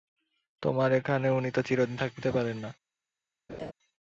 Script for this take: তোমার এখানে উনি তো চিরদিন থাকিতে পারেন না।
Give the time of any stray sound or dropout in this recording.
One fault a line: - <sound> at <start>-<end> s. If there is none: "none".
- laugh at 3.5-3.7 s